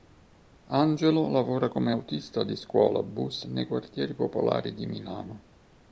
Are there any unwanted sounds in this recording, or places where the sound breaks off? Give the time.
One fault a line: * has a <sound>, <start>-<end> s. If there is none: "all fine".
all fine